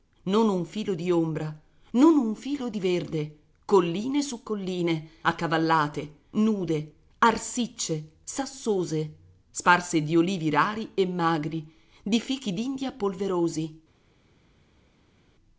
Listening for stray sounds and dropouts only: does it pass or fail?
pass